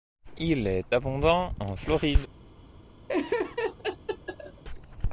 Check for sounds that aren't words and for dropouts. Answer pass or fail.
fail